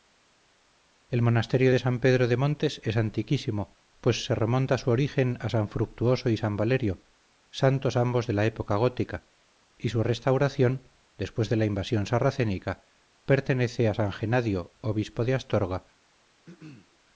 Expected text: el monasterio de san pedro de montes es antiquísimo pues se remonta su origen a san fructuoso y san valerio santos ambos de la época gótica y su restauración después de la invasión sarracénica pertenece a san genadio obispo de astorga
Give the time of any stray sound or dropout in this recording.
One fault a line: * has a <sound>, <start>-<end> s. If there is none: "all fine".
* has a throat clearing, 16.4-17.0 s